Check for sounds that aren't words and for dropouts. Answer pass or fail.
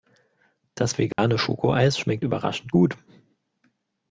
fail